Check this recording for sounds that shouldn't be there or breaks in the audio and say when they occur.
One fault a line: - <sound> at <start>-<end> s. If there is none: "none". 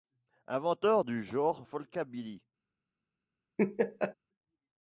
- laugh at 3.6-4.1 s